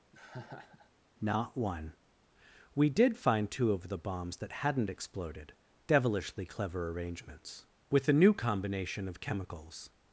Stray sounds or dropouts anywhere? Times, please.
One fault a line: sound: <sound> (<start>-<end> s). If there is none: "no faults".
sound: laugh (0.1-0.9 s)